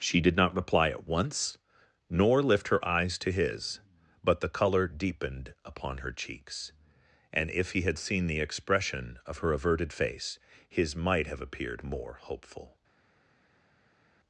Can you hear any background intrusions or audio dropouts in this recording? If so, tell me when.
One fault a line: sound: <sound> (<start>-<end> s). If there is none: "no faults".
no faults